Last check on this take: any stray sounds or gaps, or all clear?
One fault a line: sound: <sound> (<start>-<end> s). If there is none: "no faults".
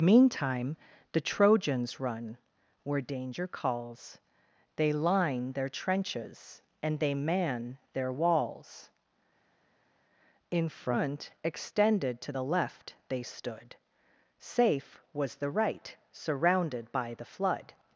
no faults